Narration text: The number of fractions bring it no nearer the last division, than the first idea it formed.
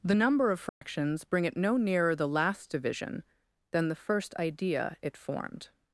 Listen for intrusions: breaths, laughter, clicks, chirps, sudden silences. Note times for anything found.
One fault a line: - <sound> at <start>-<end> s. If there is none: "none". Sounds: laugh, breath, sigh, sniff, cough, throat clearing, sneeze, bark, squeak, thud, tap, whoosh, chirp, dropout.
- dropout at 0.7-0.8 s